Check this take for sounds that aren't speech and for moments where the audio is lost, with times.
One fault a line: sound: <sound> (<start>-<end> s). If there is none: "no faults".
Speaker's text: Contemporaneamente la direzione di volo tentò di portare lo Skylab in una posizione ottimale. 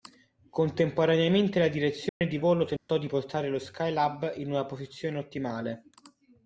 sound: dropout (2.1-2.2 s)
sound: dropout (2.8-2.9 s)